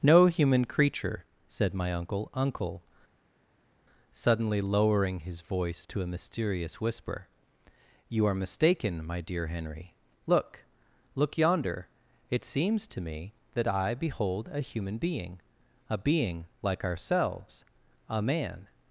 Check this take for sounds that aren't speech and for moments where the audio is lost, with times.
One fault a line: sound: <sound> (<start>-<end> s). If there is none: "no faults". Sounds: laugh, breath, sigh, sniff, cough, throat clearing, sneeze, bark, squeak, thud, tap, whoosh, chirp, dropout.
no faults